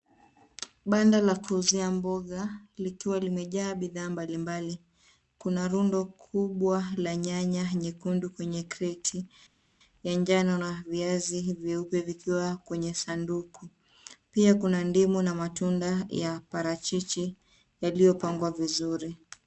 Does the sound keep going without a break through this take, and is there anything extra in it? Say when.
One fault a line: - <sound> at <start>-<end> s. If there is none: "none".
none